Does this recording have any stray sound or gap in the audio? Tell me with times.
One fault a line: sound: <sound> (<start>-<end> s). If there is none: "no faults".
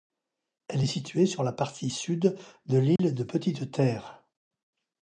sound: dropout (3.0-3.0 s)